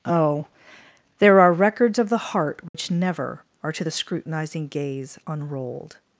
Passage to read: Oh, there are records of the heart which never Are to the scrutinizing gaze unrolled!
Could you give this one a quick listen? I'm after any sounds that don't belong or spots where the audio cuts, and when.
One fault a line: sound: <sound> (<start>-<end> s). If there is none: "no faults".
sound: dropout (2.7-2.7 s)